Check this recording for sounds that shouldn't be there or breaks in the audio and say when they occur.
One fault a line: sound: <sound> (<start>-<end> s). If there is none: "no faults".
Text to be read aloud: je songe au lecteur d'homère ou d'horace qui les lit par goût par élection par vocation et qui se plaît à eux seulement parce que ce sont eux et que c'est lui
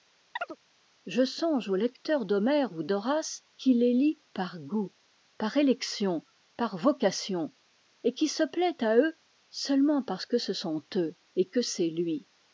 sound: chirp (0.4-0.6 s)